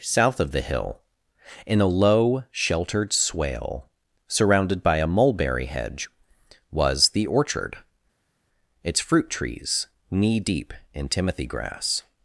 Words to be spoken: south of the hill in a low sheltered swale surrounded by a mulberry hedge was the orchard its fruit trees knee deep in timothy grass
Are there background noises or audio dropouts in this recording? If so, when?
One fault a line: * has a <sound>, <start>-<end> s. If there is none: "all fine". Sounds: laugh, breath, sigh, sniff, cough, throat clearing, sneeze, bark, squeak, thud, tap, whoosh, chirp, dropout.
all fine